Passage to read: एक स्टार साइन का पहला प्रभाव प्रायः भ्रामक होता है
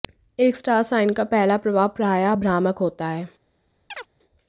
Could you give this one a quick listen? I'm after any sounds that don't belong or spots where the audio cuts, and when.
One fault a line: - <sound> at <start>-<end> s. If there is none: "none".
- chirp at 3.9-4.1 s